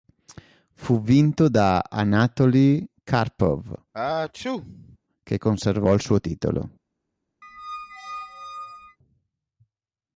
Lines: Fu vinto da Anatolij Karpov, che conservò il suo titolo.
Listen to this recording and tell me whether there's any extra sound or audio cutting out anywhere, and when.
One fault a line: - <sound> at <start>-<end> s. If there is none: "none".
- sneeze at 3.9-5.0 s
- squeak at 7.4-9.0 s